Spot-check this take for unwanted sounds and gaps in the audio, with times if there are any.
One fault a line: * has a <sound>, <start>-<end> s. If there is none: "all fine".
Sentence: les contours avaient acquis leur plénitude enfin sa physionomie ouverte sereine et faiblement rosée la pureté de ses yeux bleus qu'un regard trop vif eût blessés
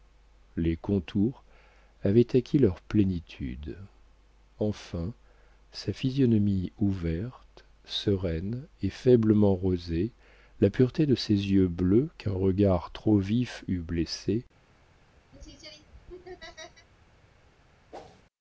* has a laugh, 15.3-16.9 s
* has a whoosh, 17.9-18.2 s